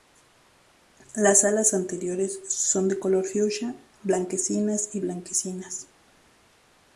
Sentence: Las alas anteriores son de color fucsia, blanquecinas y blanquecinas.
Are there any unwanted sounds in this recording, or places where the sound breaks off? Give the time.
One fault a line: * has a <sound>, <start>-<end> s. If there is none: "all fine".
all fine